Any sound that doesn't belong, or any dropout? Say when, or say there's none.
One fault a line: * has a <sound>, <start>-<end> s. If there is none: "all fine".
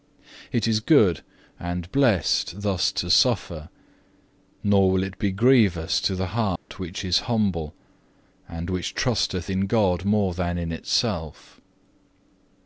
* has a dropout, 6.6-6.7 s